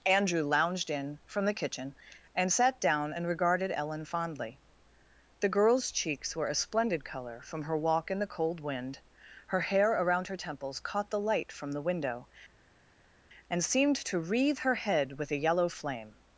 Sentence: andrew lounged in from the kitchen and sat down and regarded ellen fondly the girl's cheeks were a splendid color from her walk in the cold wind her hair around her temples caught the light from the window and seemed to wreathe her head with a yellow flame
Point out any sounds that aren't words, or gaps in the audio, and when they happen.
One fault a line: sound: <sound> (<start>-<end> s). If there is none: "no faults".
no faults